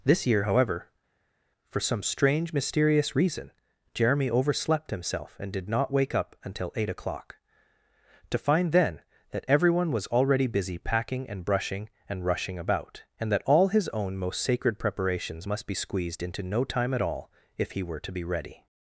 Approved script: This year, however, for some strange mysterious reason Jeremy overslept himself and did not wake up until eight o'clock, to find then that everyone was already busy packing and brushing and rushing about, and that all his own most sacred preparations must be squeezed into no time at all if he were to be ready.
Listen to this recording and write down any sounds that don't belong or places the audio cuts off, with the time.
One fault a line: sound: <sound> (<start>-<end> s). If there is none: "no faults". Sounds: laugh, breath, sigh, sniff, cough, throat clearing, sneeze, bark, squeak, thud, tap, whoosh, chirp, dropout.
no faults